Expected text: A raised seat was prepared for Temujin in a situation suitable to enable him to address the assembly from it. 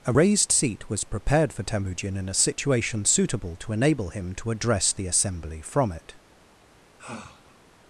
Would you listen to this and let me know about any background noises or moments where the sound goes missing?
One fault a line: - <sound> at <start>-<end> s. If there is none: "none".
- sigh at 7.0-7.6 s